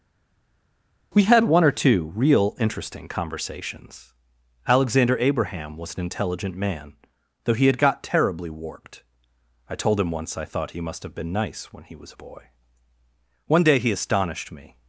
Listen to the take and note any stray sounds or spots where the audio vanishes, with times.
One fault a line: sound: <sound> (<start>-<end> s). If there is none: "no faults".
no faults